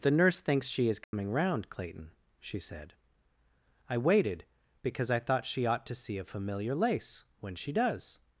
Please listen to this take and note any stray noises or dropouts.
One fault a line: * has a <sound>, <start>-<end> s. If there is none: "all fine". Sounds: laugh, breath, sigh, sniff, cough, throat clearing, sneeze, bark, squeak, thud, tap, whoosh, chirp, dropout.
* has a dropout, 1.0-1.1 s